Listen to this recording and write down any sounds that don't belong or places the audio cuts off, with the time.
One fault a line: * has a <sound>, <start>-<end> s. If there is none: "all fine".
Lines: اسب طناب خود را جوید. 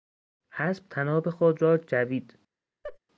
* has a laugh, 2.8-3.0 s